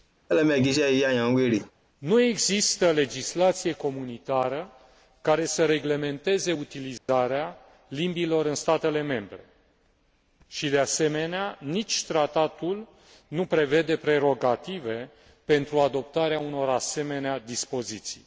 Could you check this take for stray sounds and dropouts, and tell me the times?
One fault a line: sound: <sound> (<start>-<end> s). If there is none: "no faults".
sound: laugh (0.3-1.7 s)
sound: dropout (7.0-7.1 s)